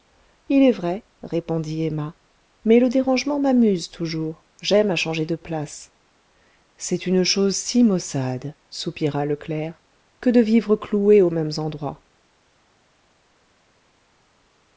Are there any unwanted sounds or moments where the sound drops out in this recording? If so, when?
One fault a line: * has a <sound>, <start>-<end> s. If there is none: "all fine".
all fine